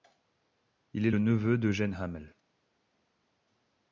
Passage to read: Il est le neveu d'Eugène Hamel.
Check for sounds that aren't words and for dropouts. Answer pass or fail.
pass